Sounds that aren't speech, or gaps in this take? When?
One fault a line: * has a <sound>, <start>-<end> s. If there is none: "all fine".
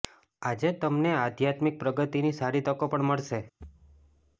* has a thud, 3.6-4.4 s